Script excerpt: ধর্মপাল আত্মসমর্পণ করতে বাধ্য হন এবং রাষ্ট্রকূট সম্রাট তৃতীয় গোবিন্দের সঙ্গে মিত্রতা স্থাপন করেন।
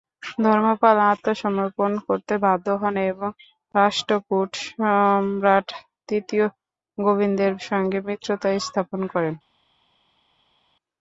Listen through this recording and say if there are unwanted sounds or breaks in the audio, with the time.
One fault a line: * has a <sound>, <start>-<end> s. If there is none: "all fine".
all fine